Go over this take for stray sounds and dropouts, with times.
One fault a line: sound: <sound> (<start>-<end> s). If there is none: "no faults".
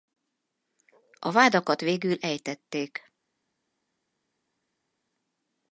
no faults